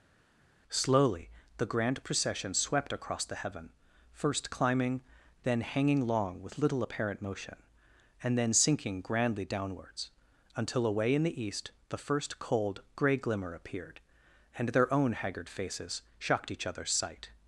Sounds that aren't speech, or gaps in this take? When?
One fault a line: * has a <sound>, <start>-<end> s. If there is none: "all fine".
all fine